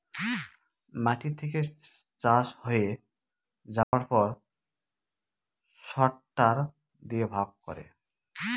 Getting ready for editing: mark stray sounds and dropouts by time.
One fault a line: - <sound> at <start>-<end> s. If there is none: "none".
- dropout at 3.8-3.9 s